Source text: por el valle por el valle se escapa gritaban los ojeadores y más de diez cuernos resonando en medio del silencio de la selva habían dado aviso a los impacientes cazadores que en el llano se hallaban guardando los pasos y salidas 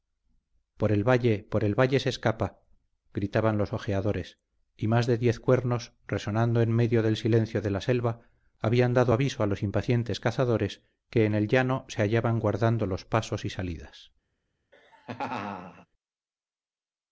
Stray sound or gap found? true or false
true